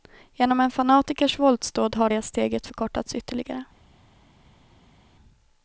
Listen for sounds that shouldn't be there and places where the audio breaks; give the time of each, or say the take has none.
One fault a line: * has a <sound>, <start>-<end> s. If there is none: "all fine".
all fine